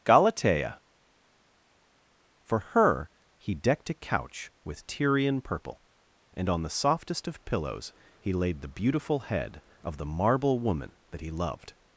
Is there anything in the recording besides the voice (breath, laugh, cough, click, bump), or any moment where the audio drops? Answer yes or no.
no